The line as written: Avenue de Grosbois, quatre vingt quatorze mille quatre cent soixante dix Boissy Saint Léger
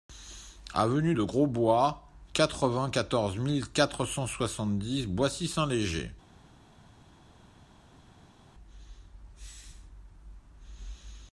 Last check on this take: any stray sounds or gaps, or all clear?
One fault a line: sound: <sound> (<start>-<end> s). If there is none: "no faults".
no faults